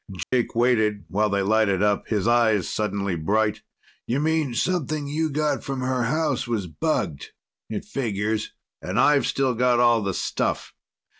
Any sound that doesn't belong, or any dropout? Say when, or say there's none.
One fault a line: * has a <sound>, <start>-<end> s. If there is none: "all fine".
* has a dropout, 0.2-0.3 s